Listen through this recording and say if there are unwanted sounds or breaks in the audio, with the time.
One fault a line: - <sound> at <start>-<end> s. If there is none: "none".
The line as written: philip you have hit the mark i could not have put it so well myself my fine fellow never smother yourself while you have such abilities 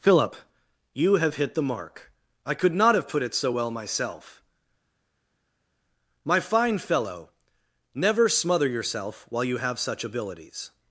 none